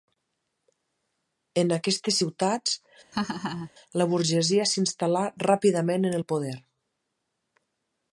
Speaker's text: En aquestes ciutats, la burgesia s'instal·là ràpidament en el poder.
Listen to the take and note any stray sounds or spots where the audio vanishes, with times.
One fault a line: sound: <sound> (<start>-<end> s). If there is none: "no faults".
sound: laugh (3.1-3.7 s)